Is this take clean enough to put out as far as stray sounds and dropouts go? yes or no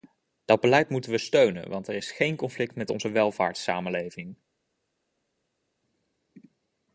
yes